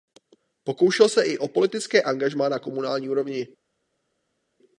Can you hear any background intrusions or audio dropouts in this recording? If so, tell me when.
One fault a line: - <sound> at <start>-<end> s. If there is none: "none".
none